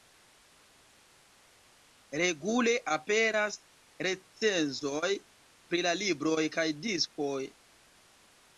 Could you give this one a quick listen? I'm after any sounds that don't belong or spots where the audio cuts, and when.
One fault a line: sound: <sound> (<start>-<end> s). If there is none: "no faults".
no faults